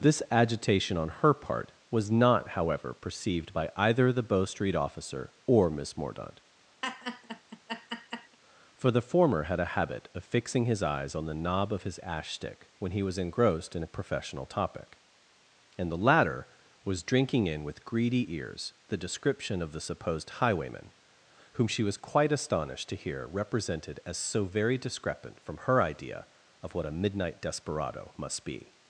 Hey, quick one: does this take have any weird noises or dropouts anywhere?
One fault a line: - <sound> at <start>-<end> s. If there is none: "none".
- laugh at 6.8-8.4 s